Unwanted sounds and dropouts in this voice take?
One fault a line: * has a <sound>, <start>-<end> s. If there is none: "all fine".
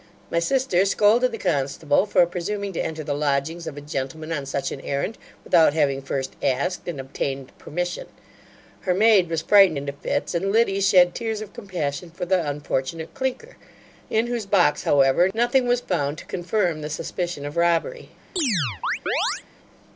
* has a chirp, 18.4-19.4 s